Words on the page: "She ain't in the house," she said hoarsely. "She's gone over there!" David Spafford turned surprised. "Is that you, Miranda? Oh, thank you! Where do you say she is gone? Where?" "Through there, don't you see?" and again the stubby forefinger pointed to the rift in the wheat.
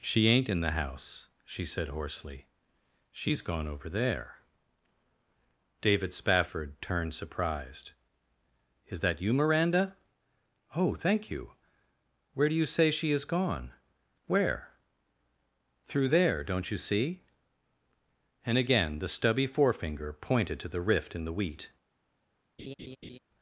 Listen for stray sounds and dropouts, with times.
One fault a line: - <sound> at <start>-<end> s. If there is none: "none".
- laugh at 22.6-23.2 s